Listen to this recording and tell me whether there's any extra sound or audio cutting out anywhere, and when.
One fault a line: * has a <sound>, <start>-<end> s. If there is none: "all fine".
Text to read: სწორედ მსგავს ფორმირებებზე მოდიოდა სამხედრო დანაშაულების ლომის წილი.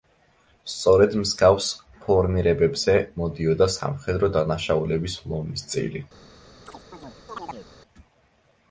* has a chirp, 6.7-7.7 s